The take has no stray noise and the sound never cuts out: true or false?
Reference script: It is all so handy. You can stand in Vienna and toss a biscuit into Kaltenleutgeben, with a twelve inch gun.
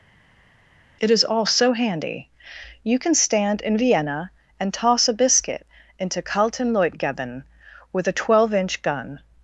true